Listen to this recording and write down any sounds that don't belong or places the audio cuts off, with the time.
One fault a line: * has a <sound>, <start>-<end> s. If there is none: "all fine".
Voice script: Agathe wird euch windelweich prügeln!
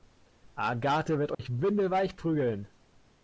* has a dropout, 1.3-1.4 s